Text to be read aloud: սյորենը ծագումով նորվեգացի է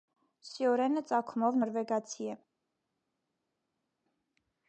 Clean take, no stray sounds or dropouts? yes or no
yes